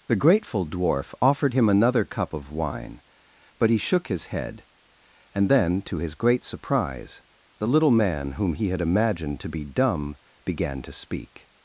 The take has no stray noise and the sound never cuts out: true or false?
true